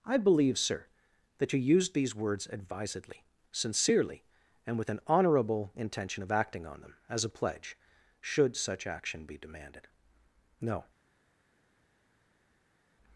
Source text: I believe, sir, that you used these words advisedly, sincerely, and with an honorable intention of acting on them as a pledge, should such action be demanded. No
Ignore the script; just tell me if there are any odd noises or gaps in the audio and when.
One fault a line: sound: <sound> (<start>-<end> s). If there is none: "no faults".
no faults